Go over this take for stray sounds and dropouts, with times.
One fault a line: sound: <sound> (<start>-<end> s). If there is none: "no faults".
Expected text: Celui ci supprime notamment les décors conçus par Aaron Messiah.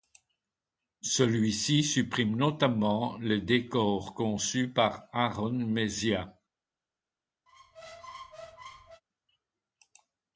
sound: squeak (7.5-9.0 s)